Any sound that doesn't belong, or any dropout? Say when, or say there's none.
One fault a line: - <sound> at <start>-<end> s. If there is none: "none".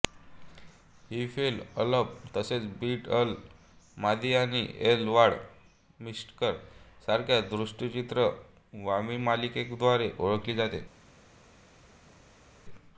none